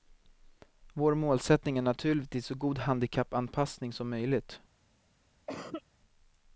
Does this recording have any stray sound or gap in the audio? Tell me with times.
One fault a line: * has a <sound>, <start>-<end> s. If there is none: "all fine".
* has a cough, 5.5-5.8 s